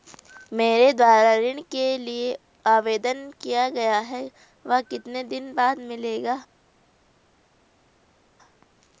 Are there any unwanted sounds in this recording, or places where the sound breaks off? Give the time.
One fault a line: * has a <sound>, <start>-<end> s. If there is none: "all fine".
all fine